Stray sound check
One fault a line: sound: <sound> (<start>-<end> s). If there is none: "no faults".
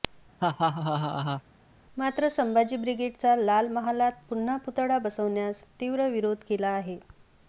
sound: laugh (0.4-1.4 s)